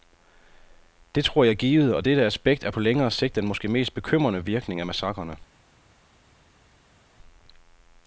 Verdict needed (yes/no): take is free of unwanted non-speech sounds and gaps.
yes